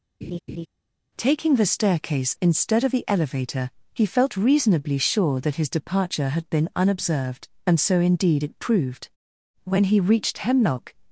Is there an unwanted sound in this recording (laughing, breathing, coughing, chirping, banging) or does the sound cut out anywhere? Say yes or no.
yes